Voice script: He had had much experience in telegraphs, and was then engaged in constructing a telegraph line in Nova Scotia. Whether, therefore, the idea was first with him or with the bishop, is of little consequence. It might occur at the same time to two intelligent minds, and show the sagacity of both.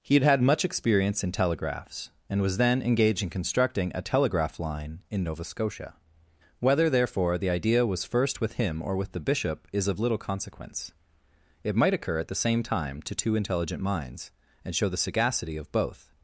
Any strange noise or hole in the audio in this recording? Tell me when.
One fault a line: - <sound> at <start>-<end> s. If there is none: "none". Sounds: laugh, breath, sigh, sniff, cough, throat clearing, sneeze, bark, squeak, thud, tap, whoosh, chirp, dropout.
none